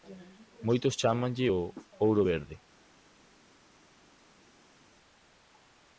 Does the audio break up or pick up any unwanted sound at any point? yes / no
no